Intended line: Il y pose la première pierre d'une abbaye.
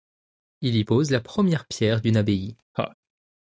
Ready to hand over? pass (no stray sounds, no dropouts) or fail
fail